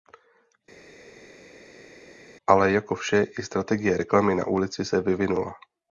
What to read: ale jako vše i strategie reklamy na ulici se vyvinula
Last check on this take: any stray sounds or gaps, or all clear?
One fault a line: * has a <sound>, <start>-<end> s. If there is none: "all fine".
all fine